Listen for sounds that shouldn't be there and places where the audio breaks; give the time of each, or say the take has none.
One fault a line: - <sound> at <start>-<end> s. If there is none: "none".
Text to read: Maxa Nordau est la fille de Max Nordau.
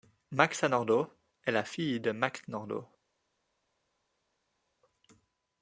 none